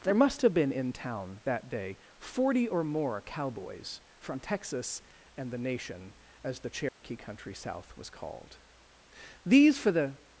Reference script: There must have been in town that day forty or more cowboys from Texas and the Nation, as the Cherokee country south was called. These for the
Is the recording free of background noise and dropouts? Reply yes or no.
no